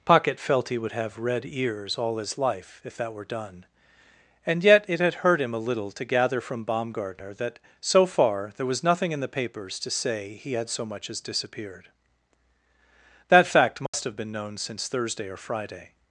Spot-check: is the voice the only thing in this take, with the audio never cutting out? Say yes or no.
no